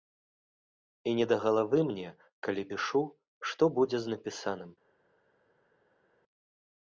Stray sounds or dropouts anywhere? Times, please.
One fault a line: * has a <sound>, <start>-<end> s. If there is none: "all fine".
all fine